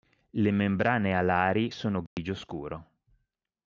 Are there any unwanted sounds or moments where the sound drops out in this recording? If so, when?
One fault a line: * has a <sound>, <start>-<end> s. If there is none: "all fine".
* has a dropout, 2.1-2.2 s